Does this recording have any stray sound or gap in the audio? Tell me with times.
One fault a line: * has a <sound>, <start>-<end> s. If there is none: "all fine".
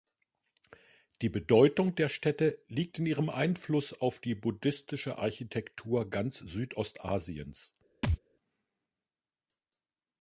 * has a thud, 8.0-8.2 s